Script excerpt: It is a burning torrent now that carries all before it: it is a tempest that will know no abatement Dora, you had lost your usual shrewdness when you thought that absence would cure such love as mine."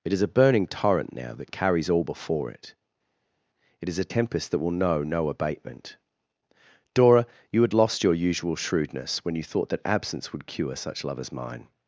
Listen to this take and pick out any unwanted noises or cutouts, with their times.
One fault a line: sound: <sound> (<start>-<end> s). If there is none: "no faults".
no faults